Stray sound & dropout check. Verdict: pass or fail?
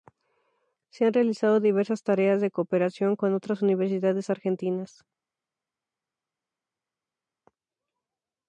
pass